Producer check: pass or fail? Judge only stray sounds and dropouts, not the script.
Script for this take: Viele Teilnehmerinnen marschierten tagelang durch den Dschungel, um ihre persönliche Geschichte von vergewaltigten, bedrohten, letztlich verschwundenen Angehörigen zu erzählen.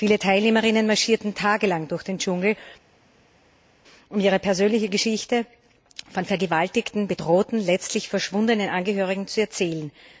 pass